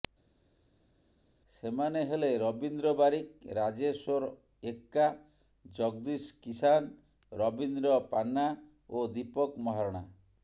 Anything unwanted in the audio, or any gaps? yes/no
no